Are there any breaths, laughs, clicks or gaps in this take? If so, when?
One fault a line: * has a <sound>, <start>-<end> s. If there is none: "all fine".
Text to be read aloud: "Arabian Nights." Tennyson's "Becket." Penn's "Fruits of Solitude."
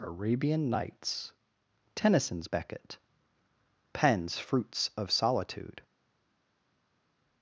all fine